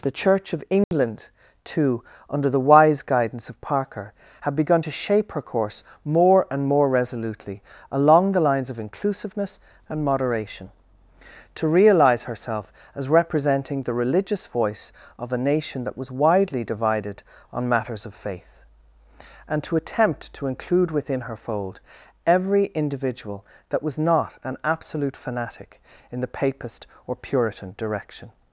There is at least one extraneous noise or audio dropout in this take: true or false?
true